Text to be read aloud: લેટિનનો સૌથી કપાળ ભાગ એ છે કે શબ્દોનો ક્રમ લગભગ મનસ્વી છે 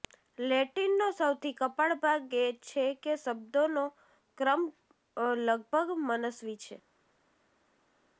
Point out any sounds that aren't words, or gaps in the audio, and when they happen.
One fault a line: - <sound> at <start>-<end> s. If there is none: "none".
none